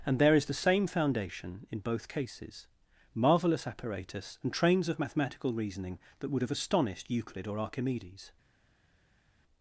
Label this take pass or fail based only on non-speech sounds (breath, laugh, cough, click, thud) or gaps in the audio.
pass